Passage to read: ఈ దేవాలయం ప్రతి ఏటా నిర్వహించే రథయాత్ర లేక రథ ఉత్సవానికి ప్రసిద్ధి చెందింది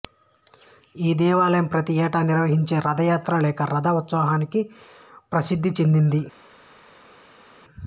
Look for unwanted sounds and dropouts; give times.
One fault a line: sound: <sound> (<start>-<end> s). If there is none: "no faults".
no faults